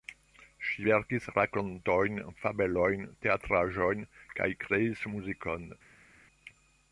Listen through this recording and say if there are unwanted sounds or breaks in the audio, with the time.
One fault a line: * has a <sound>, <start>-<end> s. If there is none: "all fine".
all fine